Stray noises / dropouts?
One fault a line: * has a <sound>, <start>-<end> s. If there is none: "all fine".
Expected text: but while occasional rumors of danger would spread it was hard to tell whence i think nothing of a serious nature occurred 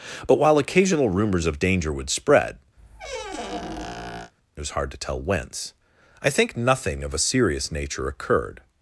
* has a squeak, 2.8-4.3 s